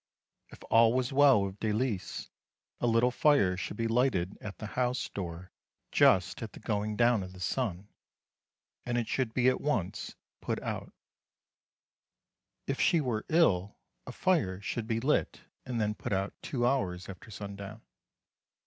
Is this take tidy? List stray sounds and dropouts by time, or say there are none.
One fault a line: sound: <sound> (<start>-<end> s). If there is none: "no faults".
no faults